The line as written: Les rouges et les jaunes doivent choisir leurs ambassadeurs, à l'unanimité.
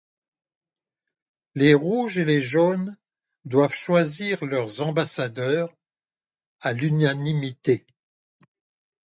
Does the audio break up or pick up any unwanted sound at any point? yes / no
no